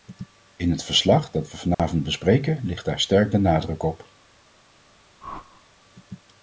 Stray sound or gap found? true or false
true